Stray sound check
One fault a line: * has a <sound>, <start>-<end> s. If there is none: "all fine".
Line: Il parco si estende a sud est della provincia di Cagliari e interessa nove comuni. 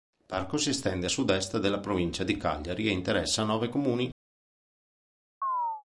* has a chirp, 5.4-5.8 s